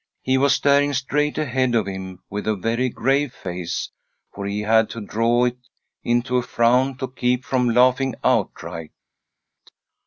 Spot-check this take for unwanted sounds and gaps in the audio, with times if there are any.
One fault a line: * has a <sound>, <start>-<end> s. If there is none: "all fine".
all fine